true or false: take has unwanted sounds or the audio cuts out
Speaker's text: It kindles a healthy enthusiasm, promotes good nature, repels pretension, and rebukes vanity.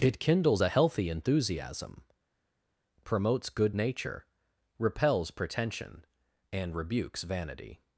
false